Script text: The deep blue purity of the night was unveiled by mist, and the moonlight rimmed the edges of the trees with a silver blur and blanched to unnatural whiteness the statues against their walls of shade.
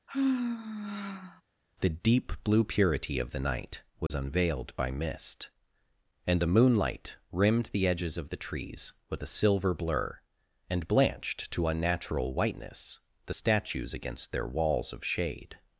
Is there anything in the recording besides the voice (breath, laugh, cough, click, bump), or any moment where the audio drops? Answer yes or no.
yes